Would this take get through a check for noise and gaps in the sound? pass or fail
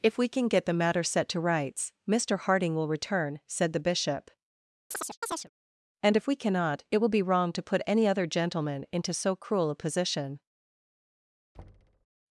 fail